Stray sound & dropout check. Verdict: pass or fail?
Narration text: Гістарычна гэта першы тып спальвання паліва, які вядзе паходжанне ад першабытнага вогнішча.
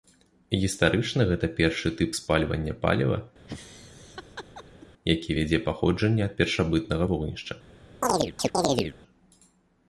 fail